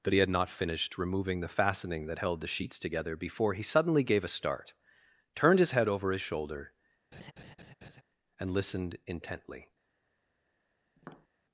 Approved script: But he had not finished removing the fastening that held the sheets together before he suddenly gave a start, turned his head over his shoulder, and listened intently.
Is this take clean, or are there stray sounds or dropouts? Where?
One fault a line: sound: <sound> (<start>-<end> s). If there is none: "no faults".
sound: laugh (7.1-8.0 s)
sound: tap (11.0-11.3 s)